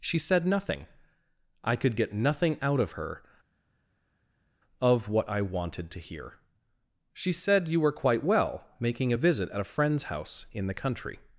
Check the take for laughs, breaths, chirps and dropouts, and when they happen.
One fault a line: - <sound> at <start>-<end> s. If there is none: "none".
none